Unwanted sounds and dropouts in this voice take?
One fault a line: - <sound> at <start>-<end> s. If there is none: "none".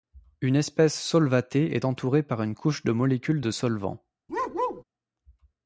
- bark at 4.3-4.8 s